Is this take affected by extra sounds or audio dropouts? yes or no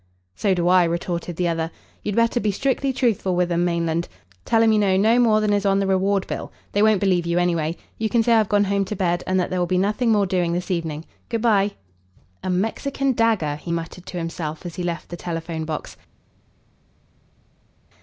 no